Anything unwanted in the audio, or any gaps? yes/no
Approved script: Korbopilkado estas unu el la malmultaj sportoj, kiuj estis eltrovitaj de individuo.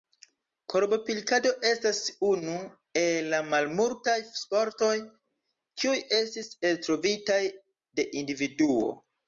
no